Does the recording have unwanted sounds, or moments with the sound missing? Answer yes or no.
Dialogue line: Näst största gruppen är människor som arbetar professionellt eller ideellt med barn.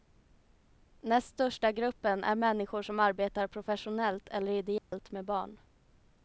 yes